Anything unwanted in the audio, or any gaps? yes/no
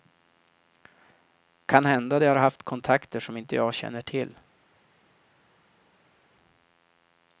no